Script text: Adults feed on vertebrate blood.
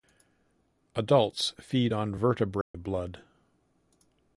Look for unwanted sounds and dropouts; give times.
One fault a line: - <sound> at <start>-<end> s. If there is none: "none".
- dropout at 2.6-2.7 s